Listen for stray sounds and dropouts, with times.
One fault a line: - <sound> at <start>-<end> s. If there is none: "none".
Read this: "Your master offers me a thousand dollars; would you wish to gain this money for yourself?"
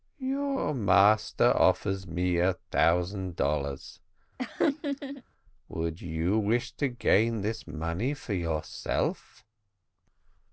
- laugh at 4.4-5.2 s